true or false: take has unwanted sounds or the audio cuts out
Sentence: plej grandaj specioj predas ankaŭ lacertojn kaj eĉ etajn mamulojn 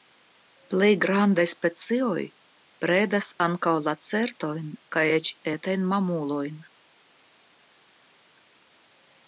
false